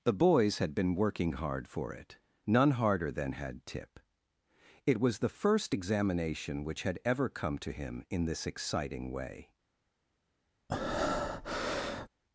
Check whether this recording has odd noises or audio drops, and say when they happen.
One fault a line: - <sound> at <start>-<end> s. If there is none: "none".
- breath at 10.7-12.1 s